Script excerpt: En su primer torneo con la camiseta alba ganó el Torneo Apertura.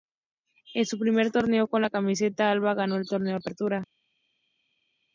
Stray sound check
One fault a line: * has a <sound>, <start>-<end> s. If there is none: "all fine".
all fine